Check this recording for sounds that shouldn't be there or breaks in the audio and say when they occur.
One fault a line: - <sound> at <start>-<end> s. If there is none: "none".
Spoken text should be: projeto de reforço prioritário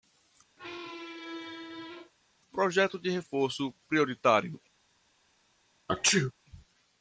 - squeak at 0.6-2.1 s
- sneeze at 5.9-6.3 s